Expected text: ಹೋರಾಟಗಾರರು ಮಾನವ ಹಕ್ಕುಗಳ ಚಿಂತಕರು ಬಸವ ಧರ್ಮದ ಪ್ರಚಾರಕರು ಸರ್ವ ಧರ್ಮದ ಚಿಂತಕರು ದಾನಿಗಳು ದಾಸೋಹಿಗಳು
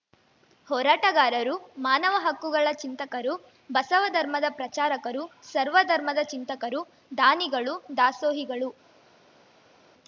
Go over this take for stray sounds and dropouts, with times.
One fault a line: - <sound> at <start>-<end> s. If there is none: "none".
none